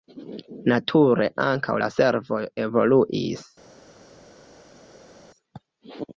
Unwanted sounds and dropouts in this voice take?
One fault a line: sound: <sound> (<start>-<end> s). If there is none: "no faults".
no faults